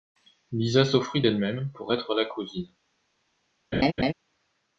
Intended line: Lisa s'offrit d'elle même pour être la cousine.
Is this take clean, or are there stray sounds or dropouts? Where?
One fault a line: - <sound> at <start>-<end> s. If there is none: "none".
- laugh at 3.7-4.1 s